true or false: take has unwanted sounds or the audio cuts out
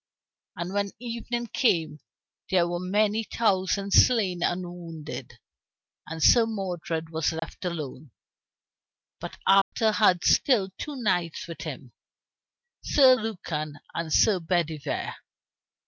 true